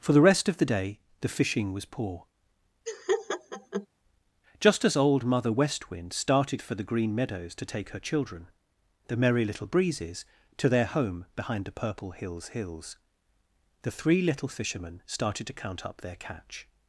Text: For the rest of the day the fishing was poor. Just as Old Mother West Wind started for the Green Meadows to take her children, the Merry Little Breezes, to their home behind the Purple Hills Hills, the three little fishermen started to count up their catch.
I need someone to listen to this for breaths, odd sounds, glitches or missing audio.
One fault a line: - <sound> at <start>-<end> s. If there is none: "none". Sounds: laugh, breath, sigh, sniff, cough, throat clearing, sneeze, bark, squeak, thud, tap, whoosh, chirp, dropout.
- laugh at 2.9-3.9 s